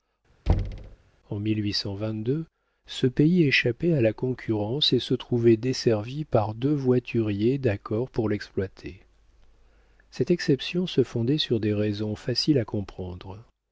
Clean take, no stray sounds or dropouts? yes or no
no